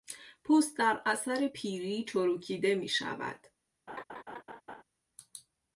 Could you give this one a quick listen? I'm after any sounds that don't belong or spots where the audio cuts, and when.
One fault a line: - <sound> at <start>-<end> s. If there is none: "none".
- laugh at 3.9-4.8 s